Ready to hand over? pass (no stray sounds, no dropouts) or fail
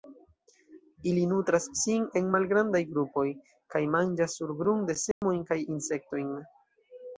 fail